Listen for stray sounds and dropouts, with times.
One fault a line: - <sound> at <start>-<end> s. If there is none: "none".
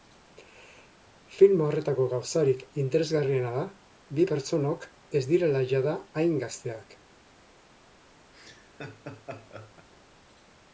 - laugh at 8.3-9.9 s